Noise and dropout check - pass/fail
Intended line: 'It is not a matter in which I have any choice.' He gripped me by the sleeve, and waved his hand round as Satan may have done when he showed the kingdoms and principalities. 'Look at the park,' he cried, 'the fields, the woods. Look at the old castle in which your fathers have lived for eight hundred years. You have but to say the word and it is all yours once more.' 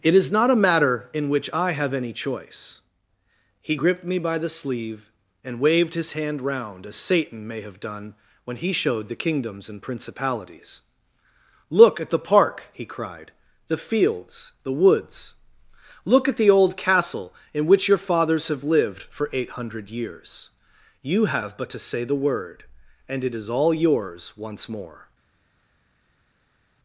pass